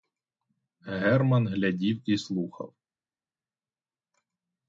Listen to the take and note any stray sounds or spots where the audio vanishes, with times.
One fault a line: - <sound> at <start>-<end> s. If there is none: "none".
none